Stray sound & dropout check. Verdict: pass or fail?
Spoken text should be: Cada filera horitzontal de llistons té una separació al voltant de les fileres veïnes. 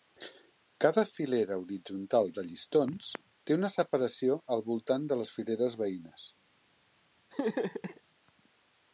fail